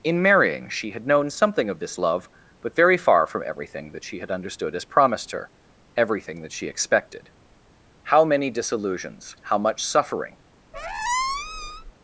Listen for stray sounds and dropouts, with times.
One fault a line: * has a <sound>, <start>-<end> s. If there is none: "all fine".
* has a squeak, 10.7-11.9 s